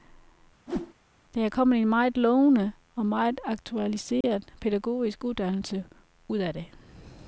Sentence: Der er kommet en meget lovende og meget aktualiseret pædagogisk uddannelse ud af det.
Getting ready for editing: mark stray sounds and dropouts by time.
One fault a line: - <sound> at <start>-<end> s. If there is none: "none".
- whoosh at 0.7-0.9 s
- dropout at 4.2-4.2 s